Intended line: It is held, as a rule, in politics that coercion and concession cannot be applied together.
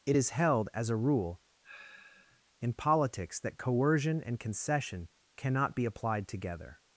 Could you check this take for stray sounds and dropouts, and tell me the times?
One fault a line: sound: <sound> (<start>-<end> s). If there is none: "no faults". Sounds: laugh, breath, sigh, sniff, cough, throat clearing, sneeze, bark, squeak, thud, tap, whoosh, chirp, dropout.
sound: sigh (1.6-2.4 s)